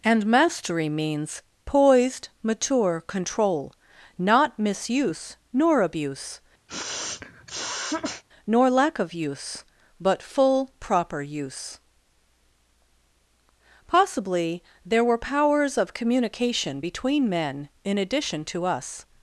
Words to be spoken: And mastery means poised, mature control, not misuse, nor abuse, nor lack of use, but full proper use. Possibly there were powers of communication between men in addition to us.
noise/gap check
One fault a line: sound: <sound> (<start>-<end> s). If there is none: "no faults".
sound: sniff (6.7-8.2 s)